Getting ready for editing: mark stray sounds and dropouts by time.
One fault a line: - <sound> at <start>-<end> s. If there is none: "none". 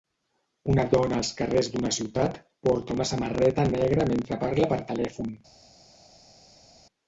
none